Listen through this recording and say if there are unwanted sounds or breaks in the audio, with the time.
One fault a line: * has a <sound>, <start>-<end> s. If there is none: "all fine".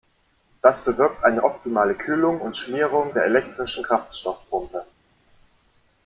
all fine